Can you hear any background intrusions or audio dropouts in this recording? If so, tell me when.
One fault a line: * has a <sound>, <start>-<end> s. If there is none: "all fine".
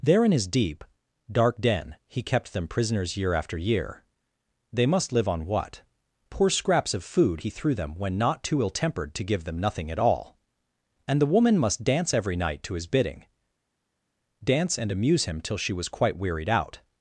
all fine